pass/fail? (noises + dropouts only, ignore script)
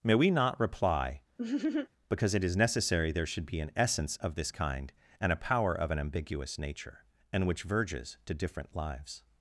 fail